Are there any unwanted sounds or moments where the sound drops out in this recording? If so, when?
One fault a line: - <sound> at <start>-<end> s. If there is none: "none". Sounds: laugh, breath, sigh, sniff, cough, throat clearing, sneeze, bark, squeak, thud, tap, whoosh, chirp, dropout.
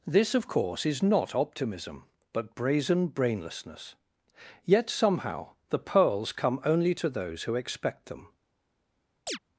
- chirp at 9.3-9.4 s